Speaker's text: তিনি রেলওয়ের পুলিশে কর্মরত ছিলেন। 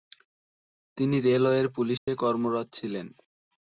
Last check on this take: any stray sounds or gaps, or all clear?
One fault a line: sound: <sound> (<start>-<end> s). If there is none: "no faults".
sound: dropout (2.0-2.1 s)